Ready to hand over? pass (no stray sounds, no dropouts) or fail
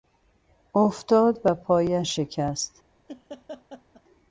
fail